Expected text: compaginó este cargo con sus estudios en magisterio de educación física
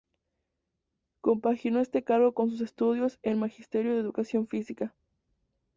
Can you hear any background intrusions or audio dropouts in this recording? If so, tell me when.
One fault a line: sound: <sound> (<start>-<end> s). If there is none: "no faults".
no faults